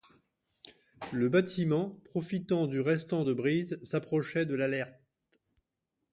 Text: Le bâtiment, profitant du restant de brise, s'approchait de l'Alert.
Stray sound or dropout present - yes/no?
no